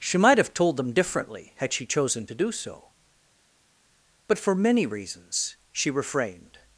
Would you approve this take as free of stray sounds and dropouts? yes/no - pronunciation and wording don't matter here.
yes